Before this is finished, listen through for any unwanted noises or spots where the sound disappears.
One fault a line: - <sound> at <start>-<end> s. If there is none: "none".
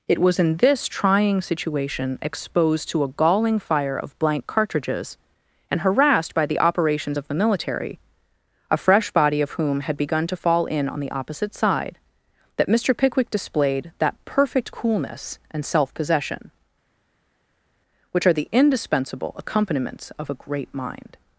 none